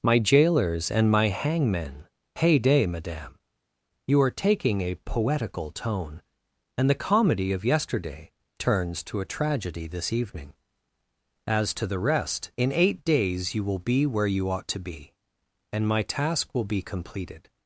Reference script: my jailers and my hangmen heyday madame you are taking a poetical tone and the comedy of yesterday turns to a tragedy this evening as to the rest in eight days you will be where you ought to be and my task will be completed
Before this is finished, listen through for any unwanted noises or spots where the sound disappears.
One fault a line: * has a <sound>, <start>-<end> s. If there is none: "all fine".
all fine